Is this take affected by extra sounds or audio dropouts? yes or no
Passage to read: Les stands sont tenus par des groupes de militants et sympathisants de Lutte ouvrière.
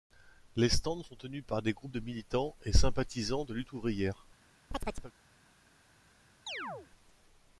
yes